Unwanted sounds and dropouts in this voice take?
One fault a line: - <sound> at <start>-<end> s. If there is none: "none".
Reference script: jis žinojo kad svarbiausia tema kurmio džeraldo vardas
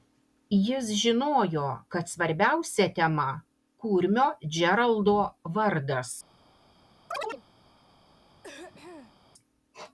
- chirp at 7.1-7.4 s
- throat clearing at 8.4-9.2 s